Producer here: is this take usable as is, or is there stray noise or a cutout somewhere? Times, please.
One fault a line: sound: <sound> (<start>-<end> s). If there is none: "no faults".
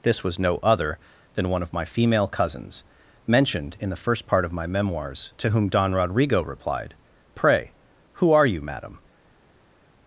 no faults